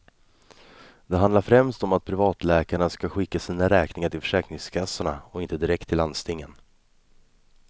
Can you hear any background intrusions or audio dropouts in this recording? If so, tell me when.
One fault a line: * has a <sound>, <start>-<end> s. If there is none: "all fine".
all fine